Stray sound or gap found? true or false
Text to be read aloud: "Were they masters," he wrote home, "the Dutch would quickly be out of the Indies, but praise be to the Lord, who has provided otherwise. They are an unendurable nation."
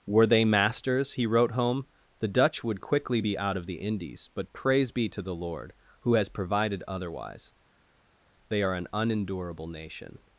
false